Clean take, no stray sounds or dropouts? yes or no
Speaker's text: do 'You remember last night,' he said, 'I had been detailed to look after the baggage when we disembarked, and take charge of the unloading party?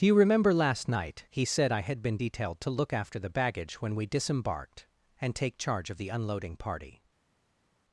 yes